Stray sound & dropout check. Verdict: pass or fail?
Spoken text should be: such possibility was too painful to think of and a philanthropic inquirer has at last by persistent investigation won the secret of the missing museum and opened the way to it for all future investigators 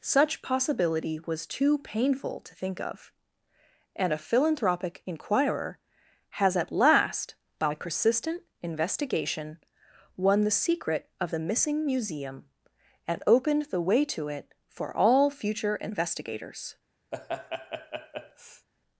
fail